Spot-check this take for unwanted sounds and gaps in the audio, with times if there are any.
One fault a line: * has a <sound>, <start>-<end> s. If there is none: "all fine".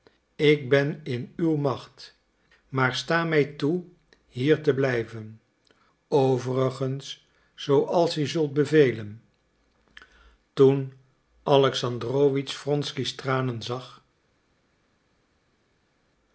all fine